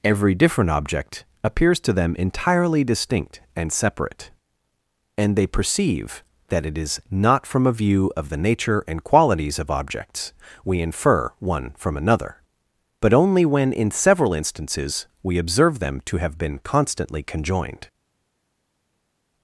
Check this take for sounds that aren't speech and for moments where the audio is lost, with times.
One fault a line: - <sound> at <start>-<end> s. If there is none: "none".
none